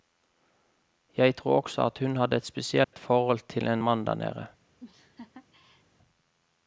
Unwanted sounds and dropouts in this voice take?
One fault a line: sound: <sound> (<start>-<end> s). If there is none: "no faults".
sound: dropout (2.8-2.9 s)
sound: laugh (4.8-5.8 s)